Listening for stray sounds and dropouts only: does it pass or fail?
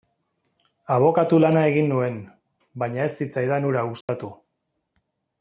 fail